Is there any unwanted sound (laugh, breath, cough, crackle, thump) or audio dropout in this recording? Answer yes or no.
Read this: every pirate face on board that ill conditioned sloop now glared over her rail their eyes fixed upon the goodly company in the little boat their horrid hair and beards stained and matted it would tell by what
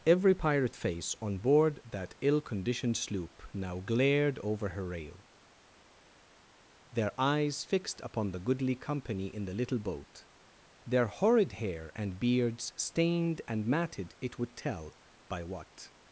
no